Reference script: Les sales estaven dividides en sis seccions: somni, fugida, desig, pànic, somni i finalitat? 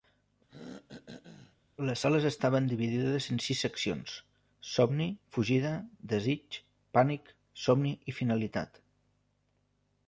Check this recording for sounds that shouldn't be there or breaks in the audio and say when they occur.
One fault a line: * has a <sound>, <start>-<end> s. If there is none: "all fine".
* has a throat clearing, 0.5-1.6 s